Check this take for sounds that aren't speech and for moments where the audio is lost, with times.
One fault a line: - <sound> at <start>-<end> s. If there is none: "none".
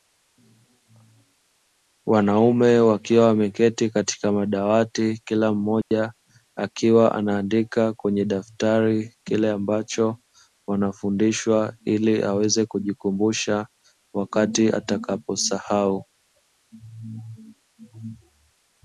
- dropout at 5.8-5.9 s